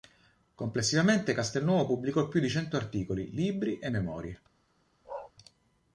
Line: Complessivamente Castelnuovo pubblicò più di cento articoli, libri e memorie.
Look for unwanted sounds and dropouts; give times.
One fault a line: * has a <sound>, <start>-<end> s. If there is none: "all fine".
* has a bark, 5.0-5.3 s